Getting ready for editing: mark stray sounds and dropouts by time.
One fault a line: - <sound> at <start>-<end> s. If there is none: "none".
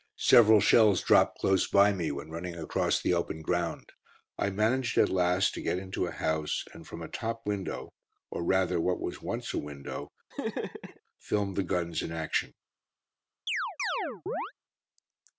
- laugh at 10.3-11.0 s
- chirp at 13.5-14.5 s